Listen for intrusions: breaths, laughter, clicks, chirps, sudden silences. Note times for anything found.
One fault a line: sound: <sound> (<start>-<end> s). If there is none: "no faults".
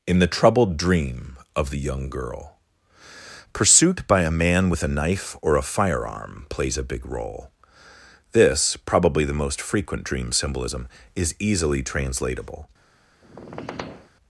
sound: squeak (13.2-14.1 s)